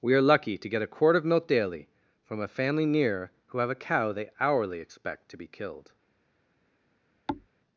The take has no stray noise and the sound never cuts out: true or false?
false